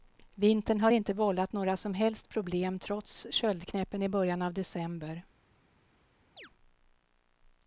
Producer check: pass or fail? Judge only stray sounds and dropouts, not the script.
fail